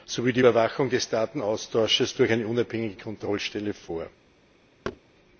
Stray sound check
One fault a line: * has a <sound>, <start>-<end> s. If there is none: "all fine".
* has a thud, 4.8-5.0 s